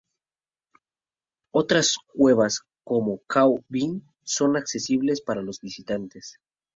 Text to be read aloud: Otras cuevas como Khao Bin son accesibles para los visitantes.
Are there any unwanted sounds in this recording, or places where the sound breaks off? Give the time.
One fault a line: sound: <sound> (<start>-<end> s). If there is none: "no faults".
no faults